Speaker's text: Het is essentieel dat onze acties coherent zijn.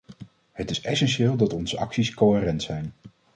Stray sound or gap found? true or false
false